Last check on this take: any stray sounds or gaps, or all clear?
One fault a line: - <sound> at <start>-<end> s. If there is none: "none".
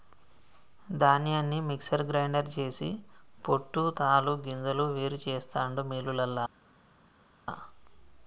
none